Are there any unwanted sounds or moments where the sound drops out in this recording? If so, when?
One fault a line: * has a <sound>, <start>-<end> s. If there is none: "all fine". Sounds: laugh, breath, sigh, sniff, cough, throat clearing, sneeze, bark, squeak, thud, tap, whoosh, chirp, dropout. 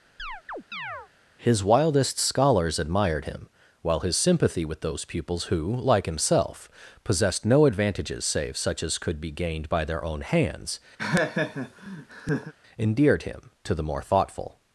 * has a chirp, 0.2-1.1 s
* has a laugh, 11.0-12.5 s